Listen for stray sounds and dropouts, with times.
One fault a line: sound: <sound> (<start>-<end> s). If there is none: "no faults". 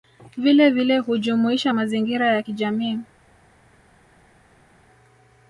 no faults